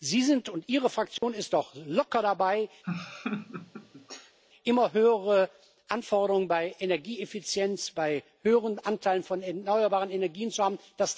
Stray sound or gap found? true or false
true